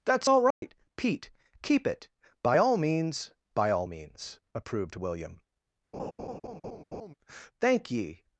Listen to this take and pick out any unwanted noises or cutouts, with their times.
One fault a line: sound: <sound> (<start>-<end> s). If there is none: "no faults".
sound: dropout (0.5-0.6 s)
sound: laugh (5.9-7.1 s)